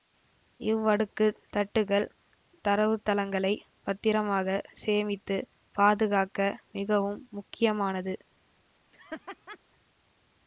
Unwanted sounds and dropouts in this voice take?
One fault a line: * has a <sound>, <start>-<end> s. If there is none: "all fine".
* has a laugh, 8.9-9.6 s